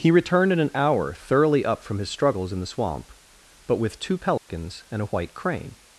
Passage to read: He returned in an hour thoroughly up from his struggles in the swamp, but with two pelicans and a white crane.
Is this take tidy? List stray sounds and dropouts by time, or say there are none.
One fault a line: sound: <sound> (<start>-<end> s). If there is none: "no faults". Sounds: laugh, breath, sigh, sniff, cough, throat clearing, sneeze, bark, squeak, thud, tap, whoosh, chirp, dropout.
sound: dropout (4.4-4.5 s)